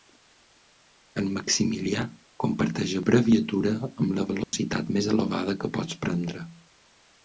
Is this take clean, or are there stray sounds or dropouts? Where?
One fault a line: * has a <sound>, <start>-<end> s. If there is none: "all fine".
* has a dropout, 4.4-4.5 s